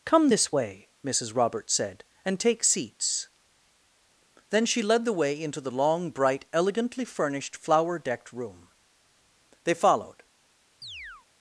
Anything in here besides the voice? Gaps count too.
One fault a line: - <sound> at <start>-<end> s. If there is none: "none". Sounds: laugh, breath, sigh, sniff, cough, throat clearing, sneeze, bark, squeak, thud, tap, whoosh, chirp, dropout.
- chirp at 10.8-11.3 s